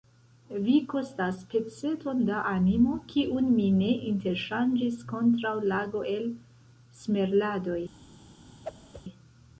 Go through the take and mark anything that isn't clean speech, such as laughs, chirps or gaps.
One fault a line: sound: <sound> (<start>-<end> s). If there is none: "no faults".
sound: whoosh (8.6-9.0 s)